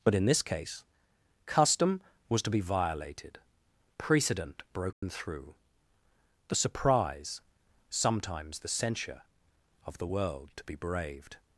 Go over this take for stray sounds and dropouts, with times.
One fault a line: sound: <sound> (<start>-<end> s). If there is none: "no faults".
sound: dropout (4.9-5.0 s)